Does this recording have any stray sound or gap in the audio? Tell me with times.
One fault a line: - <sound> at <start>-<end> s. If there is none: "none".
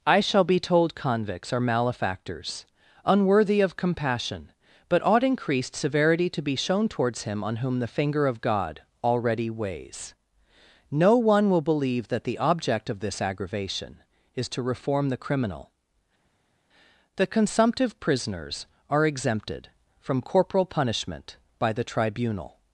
none